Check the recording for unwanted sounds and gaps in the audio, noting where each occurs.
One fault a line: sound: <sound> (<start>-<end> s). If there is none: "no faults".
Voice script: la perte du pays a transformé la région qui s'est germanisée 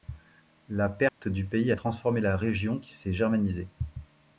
sound: dropout (1.1-1.2 s)